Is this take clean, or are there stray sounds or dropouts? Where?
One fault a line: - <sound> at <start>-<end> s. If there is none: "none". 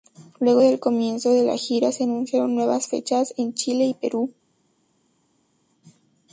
none